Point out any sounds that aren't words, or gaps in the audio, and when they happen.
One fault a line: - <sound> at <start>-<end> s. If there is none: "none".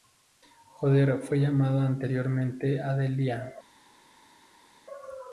none